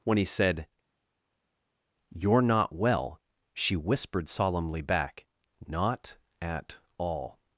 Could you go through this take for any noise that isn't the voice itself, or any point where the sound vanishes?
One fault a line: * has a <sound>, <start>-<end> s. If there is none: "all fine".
all fine